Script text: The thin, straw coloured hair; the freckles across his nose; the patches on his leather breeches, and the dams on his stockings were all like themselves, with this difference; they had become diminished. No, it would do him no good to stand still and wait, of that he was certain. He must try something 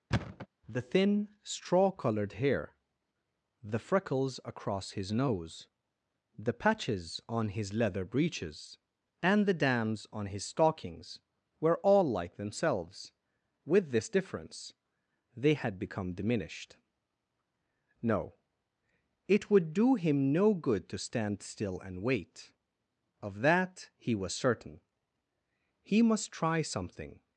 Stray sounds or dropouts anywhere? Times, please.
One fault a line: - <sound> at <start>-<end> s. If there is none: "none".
- thud at 0.1-0.5 s